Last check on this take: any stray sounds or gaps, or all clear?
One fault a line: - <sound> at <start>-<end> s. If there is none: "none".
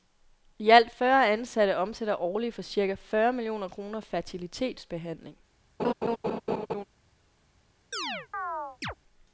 - laugh at 5.8-6.8 s
- chirp at 7.9-8.9 s